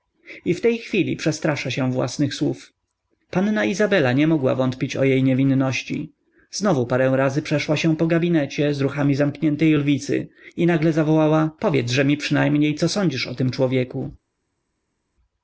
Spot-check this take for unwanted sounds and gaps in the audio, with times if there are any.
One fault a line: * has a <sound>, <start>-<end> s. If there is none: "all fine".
all fine